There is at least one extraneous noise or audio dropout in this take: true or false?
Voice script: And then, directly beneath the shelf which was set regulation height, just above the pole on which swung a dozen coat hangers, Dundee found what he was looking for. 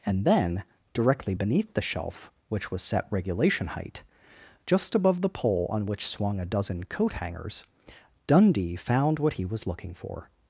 false